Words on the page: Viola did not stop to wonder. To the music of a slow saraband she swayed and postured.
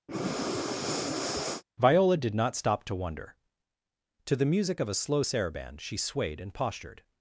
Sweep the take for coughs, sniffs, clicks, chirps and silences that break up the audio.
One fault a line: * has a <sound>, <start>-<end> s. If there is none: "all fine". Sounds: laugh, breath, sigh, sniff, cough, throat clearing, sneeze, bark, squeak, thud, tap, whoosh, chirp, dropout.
* has a breath, 0.1-1.6 s